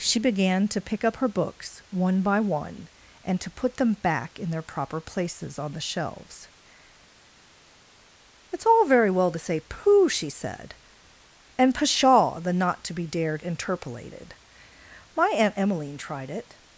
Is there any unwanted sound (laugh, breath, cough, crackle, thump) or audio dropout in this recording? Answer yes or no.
no